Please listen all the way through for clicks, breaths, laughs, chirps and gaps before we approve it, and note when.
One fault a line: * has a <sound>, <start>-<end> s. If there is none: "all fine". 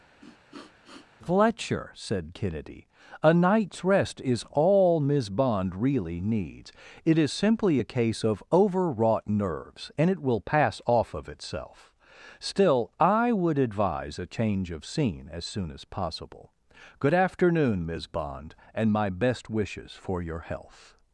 * has a sniff, 0.2-1.1 s